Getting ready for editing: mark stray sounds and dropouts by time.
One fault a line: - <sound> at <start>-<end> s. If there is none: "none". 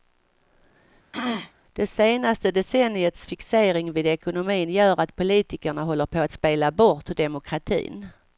- throat clearing at 1.1-1.5 s